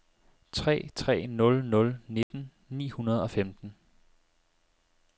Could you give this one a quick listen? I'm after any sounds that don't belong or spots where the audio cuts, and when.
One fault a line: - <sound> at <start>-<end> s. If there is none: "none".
- dropout at 2.2-2.3 s